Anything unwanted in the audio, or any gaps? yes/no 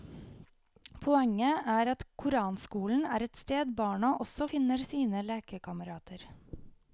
no